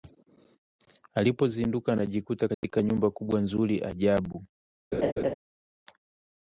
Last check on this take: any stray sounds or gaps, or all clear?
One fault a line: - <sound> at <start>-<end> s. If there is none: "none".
- dropout at 2.5-2.6 s
- laugh at 4.9-5.3 s